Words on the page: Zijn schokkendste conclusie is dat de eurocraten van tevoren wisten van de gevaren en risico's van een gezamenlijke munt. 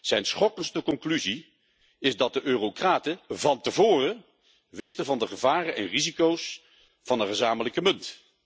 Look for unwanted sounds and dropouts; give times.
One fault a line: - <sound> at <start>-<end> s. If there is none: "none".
- dropout at 4.8-4.9 s